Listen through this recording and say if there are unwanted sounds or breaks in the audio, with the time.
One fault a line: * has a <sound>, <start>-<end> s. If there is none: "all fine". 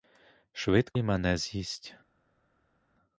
all fine